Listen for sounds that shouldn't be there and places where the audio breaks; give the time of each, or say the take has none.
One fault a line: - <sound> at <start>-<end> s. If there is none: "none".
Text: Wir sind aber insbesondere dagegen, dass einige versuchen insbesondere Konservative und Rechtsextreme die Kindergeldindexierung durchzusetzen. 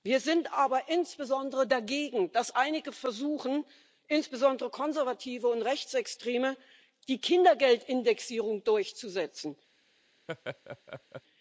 - laugh at 10.3-11.2 s